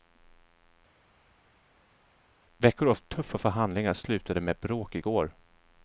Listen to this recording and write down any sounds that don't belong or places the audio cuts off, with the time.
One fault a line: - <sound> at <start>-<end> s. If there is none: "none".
none